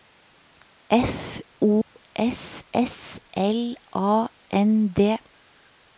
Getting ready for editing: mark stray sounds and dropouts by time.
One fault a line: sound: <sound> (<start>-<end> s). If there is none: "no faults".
sound: dropout (1.8-2.0 s)